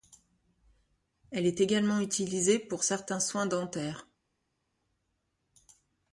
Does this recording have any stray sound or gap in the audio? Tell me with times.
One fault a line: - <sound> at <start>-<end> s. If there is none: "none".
none